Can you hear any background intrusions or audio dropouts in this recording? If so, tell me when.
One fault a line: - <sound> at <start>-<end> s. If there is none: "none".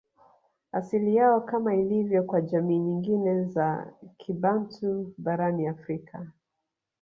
none